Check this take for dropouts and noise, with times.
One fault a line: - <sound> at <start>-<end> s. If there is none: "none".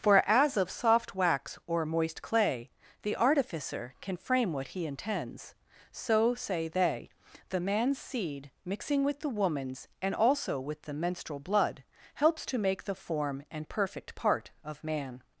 none